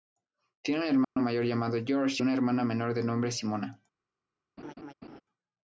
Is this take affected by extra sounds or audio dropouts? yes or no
yes